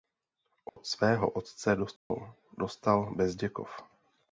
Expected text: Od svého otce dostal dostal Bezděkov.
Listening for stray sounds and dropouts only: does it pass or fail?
fail